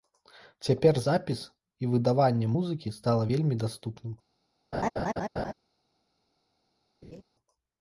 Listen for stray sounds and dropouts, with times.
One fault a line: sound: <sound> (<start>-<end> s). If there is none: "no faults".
sound: laugh (4.7-5.5 s)
sound: laugh (7.0-7.2 s)